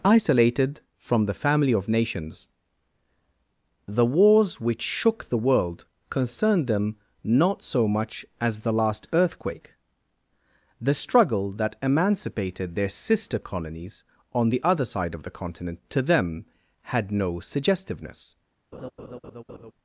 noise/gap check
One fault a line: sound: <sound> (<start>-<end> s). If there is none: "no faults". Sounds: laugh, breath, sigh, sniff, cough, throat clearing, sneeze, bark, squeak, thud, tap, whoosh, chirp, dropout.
sound: laugh (18.7-19.7 s)